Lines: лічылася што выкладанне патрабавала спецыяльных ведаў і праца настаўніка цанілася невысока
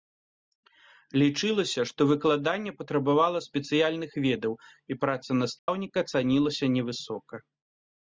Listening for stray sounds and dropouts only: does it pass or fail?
fail